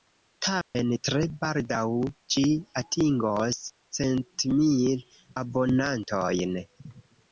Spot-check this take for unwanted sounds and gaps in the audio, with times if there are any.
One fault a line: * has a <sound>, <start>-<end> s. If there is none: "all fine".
* has a dropout, 0.6-0.8 s